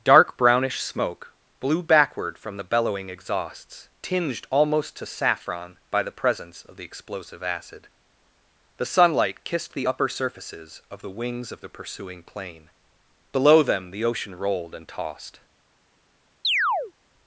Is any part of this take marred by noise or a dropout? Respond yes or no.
yes